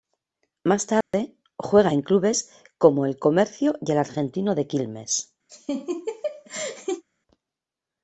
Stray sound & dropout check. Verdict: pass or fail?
fail